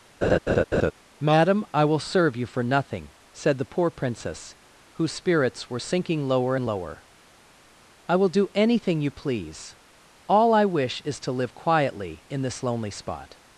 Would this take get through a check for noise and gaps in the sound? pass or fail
fail